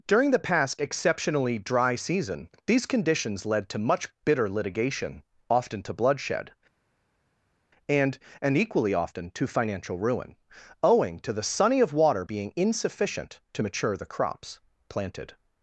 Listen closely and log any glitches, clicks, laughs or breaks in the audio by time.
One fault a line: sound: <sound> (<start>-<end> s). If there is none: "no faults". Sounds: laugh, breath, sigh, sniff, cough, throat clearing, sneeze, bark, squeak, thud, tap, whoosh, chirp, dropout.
no faults